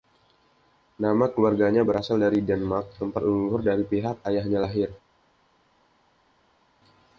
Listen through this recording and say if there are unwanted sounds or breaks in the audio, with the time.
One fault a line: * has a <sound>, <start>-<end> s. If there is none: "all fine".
all fine